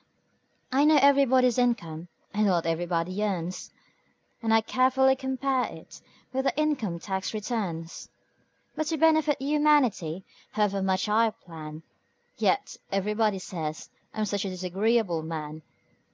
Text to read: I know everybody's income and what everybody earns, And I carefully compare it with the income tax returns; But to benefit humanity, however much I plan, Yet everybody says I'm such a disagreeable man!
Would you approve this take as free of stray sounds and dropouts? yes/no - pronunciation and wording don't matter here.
yes